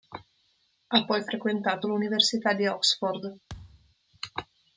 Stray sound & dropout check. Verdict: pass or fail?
fail